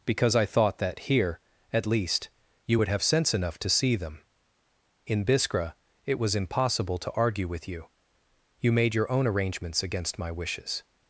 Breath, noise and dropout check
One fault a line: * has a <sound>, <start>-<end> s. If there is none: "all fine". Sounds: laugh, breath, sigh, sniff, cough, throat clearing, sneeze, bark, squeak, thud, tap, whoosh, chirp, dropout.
all fine